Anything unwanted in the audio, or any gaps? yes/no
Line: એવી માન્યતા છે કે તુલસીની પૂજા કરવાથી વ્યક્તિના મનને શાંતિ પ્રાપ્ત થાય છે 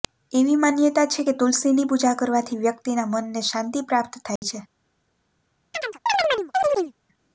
yes